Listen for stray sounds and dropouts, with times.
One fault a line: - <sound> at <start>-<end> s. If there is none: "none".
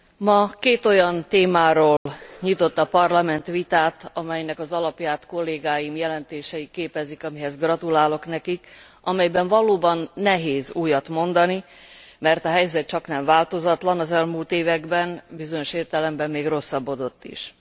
- dropout at 2.0-2.1 s